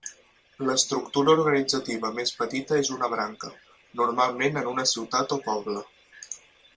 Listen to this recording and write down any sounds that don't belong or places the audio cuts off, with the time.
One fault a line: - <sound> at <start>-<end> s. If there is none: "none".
none